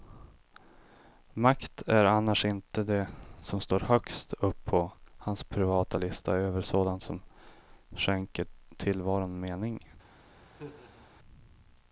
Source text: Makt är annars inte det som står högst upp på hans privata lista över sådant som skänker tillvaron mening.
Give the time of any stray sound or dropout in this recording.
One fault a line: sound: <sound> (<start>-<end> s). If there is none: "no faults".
sound: laugh (10.5-11.1 s)